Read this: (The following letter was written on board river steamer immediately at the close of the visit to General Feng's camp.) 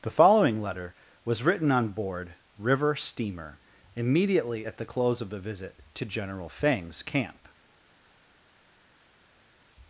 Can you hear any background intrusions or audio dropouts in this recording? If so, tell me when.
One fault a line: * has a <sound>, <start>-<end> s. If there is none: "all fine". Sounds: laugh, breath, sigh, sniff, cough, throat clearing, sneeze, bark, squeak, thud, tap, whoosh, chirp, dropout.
all fine